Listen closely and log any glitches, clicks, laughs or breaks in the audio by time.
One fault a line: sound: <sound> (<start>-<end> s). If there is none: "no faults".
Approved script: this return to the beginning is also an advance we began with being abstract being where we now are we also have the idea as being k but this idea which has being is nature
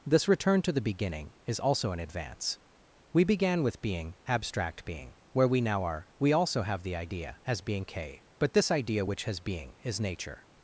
no faults